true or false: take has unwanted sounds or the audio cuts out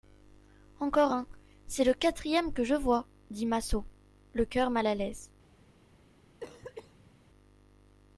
true